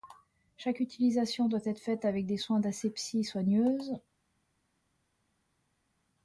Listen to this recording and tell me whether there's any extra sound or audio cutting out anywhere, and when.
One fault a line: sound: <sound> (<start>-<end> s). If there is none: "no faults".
no faults